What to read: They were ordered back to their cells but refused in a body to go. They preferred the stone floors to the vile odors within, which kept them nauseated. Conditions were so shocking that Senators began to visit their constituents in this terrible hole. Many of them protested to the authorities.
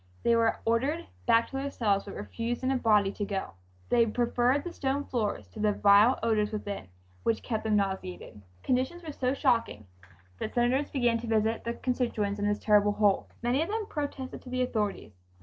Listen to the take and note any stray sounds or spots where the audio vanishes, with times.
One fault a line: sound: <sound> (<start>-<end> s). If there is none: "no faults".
no faults